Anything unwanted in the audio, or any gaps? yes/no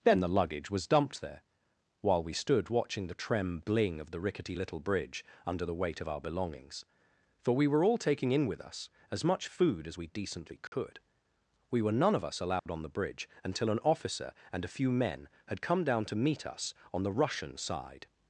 yes